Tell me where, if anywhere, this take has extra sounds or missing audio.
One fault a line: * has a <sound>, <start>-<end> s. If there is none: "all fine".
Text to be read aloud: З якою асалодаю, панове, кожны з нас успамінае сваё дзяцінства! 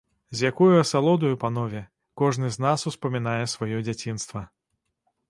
all fine